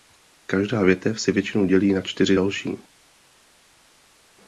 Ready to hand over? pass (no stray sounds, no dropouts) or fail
pass